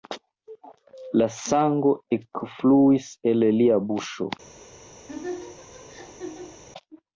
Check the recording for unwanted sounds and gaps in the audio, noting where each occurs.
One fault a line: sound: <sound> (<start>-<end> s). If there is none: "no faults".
sound: laugh (5.1-6.6 s)